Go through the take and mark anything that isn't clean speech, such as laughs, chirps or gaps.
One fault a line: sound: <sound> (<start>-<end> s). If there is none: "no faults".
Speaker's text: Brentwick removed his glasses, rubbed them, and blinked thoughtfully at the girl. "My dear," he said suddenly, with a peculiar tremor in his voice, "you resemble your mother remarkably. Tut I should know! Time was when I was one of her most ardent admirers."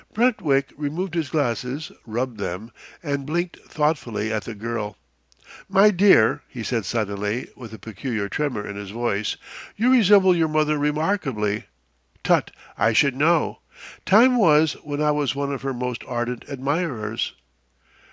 no faults